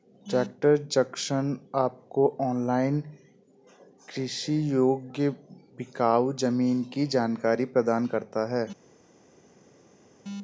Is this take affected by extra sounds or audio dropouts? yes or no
no